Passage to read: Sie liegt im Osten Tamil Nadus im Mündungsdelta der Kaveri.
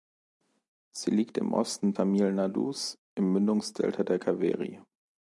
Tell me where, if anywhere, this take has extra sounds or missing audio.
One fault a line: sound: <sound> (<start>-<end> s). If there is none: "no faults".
no faults